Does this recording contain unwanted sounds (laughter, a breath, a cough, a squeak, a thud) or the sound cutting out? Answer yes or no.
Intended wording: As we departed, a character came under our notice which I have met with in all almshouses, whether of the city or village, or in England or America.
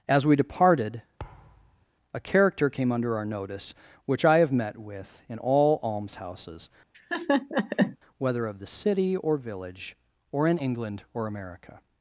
yes